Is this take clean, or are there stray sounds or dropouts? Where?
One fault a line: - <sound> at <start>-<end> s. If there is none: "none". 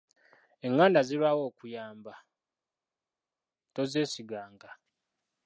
none